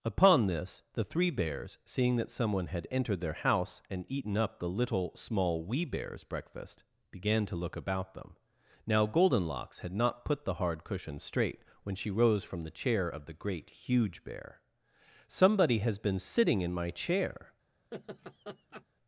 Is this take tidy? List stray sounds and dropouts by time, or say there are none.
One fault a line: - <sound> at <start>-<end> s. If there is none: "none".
- laugh at 17.9-18.8 s